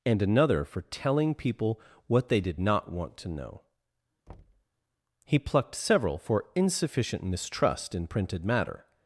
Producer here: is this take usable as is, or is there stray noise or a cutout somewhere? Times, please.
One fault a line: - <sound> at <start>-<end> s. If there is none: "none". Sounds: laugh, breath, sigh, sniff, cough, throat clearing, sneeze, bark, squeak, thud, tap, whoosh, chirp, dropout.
- thud at 4.3-4.6 s